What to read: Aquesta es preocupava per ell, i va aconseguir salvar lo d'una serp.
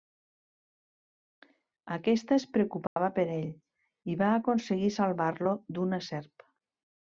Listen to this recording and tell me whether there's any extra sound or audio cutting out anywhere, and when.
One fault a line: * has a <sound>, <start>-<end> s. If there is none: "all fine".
* has a dropout, 2.9-3.0 s